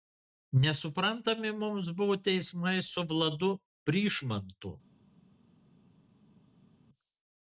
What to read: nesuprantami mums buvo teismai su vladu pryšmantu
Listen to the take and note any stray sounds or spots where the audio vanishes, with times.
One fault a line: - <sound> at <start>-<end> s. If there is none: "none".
none